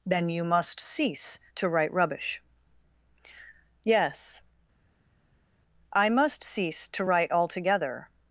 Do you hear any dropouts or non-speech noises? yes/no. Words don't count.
no